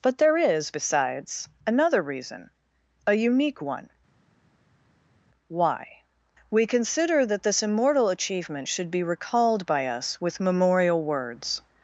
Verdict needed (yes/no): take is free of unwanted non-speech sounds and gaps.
yes